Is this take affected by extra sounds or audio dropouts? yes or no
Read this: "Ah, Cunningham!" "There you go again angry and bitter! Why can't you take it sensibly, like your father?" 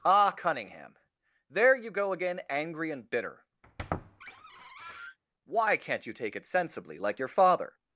yes